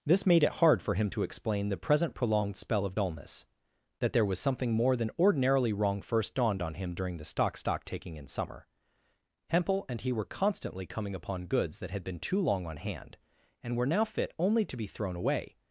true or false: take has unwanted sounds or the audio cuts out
false